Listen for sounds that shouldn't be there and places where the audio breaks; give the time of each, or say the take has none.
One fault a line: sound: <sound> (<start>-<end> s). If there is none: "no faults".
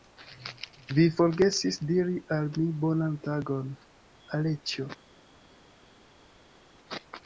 no faults